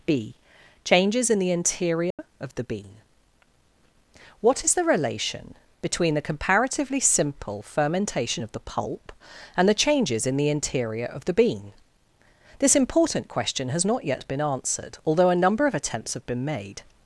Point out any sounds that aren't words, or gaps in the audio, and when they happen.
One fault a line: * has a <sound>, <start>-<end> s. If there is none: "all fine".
* has a dropout, 2.1-2.2 s